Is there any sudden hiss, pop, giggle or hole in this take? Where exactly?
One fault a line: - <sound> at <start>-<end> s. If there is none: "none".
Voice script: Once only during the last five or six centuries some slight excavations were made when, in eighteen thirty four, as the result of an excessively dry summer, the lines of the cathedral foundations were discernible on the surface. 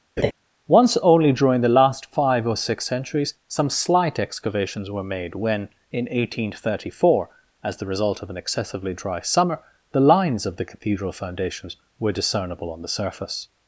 - laugh at 0.2-0.3 s